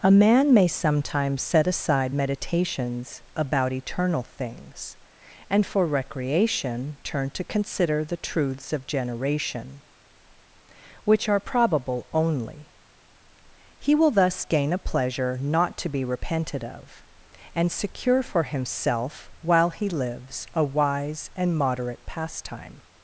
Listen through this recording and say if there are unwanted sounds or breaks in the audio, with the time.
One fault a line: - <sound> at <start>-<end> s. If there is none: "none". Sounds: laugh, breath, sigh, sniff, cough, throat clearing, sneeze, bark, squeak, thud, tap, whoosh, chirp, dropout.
none